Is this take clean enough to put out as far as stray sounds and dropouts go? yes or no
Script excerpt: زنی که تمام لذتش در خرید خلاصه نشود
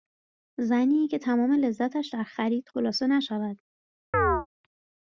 no